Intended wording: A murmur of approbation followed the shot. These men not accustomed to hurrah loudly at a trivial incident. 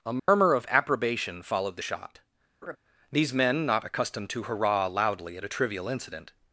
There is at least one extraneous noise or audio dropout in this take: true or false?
true